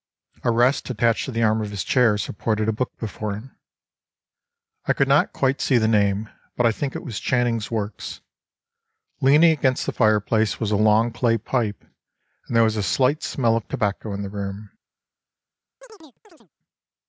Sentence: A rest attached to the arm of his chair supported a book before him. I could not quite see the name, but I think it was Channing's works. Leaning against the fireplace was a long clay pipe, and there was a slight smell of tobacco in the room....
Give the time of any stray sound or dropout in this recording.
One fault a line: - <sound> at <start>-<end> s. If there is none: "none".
- chirp at 15.8-16.5 s